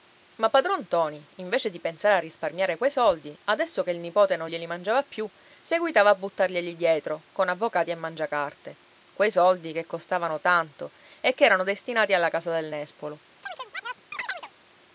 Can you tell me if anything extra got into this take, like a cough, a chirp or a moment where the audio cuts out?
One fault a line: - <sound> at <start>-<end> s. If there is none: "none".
- chirp at 13.4-14.5 s